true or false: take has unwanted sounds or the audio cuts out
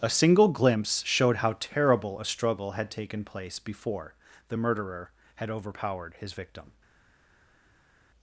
false